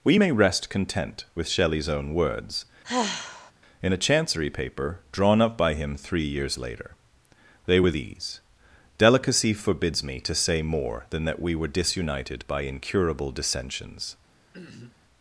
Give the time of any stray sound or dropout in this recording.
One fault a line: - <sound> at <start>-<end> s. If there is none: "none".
- sigh at 2.8-3.5 s
- throat clearing at 14.5-15.0 s